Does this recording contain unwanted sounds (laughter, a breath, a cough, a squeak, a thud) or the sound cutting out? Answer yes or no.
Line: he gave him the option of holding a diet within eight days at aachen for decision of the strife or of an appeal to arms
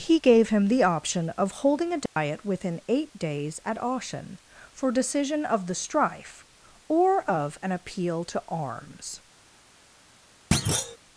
yes